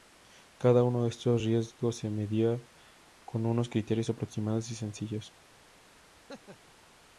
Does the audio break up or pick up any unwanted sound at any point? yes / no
yes